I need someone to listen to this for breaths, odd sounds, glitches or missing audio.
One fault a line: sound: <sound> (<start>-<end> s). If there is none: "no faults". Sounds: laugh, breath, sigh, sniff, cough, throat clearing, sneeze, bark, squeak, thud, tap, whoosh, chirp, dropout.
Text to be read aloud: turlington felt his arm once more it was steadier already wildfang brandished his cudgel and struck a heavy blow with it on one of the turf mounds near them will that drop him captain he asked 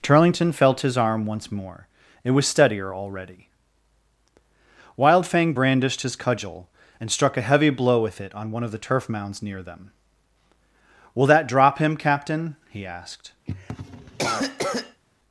sound: cough (13.5-15.0 s)